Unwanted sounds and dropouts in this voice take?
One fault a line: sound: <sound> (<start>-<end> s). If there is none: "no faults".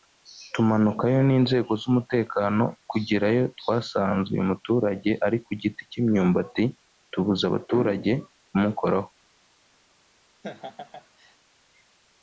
sound: laugh (10.4-11.4 s)